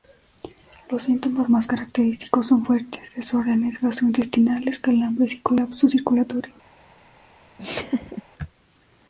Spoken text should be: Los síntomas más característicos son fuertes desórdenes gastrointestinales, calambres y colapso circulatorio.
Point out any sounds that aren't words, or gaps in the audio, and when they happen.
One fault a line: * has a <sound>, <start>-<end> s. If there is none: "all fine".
* has a laugh, 7.6-8.2 s